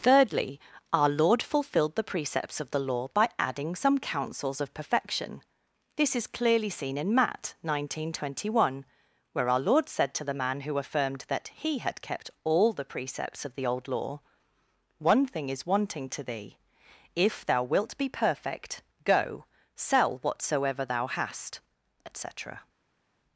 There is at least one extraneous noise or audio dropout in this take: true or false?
false